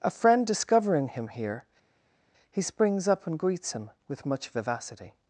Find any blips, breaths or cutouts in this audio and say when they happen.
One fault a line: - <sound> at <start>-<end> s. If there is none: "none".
none